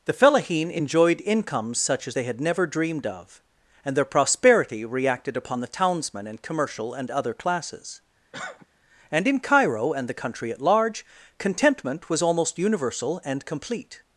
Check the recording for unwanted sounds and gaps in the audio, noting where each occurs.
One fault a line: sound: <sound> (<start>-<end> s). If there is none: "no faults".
sound: cough (8.3-8.7 s)